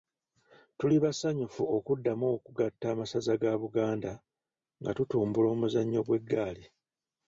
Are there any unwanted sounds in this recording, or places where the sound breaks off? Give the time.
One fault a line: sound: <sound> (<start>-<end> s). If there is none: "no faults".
no faults